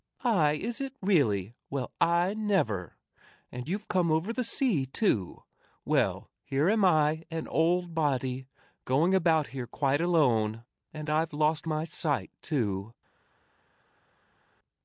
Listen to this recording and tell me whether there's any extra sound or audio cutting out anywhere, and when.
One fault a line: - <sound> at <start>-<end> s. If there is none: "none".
none